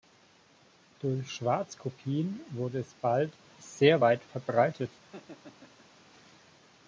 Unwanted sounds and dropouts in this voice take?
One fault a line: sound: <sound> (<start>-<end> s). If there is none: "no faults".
sound: laugh (5.0-6.0 s)